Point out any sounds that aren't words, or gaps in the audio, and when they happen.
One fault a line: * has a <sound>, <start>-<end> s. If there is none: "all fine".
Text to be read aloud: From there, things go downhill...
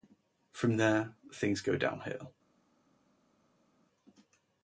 all fine